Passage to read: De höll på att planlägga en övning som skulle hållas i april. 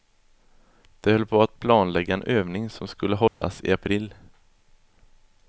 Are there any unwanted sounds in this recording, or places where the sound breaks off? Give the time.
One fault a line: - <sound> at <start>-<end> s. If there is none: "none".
- dropout at 3.3-3.4 s